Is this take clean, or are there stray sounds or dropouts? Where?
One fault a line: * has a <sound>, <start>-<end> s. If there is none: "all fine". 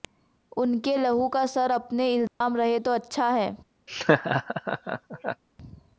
* has a dropout, 2.3-2.4 s
* has a laugh, 3.9-5.4 s